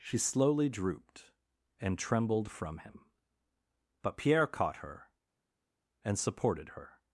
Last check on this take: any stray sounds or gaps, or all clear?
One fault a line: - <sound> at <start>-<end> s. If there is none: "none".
none